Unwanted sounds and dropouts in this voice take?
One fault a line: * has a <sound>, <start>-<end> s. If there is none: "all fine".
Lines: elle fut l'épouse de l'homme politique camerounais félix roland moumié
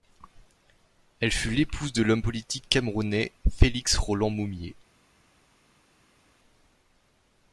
all fine